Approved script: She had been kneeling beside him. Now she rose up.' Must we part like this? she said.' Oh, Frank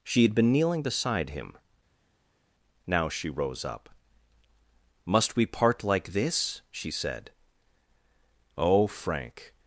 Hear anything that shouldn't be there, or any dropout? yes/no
no